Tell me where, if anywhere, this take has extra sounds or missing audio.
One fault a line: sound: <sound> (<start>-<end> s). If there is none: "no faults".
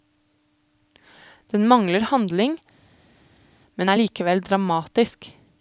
no faults